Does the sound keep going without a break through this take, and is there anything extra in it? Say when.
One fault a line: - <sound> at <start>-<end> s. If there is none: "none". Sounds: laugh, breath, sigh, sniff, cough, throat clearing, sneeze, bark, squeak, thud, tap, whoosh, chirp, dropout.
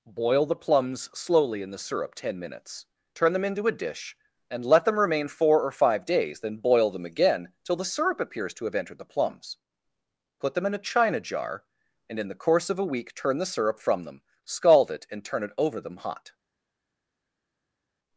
none